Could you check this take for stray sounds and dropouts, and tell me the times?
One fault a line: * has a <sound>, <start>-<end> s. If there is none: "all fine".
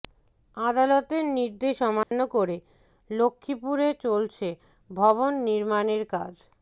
* has a dropout, 2.0-2.1 s